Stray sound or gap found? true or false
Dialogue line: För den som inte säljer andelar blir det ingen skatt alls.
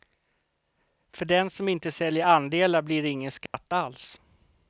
true